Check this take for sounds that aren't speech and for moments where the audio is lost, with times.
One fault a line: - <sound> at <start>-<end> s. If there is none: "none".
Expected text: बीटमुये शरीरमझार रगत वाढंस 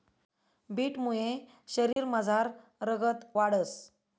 - dropout at 1.9-2.0 s